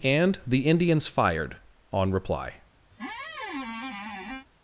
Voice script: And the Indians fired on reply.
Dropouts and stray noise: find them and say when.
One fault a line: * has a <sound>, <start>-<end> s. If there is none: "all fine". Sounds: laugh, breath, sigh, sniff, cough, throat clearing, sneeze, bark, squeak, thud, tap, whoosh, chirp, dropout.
* has a squeak, 2.9-4.5 s